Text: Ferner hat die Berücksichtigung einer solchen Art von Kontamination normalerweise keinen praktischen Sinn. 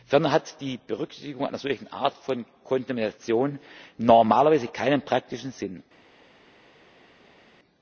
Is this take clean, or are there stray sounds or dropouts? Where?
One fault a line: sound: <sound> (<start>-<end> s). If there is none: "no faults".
no faults